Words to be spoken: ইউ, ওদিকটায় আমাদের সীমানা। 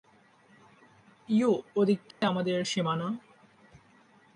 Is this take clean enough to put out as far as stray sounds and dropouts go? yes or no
no